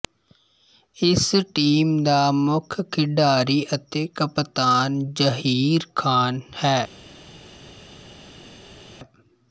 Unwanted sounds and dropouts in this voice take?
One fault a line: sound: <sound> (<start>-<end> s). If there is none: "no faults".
no faults